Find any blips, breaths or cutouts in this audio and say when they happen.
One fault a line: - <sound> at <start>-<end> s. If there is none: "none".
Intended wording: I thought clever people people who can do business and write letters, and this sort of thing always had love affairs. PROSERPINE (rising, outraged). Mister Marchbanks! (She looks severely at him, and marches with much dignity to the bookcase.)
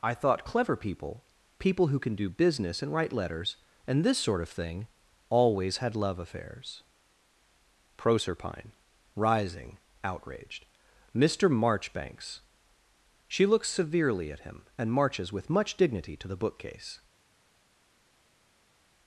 none